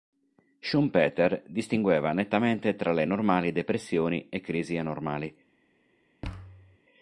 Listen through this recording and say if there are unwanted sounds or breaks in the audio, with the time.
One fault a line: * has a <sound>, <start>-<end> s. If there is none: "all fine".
* has a thud, 6.2-6.8 s